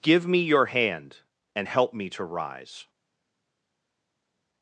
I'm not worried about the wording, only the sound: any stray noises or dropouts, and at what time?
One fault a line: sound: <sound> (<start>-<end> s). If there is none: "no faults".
no faults